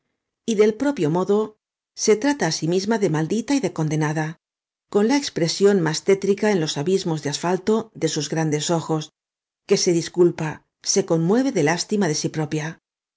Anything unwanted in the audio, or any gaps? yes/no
no